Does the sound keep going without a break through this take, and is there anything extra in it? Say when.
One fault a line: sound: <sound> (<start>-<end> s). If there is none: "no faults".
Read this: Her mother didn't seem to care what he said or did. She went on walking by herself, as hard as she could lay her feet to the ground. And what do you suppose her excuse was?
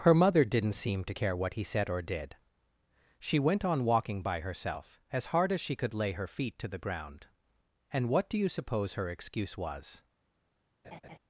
sound: laugh (10.8-11.2 s)